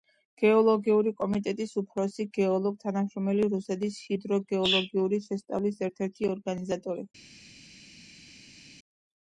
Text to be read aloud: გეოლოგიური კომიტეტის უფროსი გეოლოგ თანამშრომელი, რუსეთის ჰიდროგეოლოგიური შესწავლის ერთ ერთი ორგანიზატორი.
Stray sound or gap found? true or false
false